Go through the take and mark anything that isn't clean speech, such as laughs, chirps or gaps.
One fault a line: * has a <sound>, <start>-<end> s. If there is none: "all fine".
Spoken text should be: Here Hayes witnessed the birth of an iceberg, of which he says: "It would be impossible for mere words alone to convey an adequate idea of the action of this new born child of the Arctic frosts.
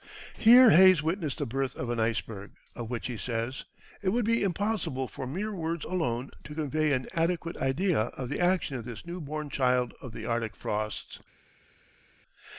all fine